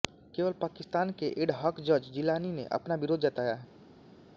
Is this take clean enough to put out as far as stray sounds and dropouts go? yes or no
yes